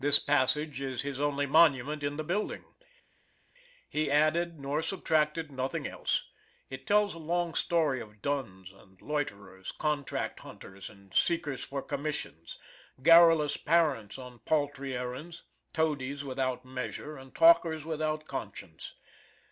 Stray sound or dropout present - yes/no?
no